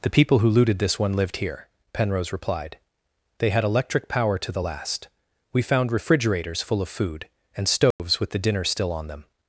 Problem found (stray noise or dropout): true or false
true